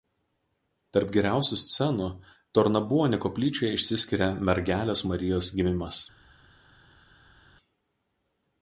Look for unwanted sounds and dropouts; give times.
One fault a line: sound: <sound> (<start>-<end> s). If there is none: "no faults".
no faults